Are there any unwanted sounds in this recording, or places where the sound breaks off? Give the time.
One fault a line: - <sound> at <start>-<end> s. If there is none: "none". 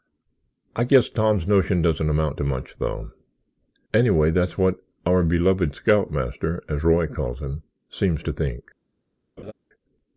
- laugh at 9.4-9.5 s